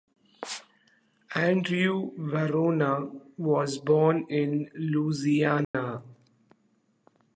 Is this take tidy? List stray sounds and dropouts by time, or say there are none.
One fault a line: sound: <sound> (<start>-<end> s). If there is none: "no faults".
sound: dropout (5.6-5.7 s)